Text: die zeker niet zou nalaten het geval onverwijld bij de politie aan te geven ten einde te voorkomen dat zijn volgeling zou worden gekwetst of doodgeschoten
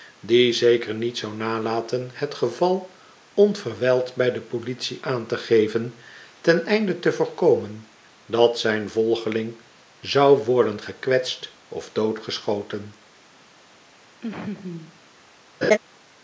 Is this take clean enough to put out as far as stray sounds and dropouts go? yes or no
no